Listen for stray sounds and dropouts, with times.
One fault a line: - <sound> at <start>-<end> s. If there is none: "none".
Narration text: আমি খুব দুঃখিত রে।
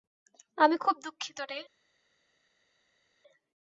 none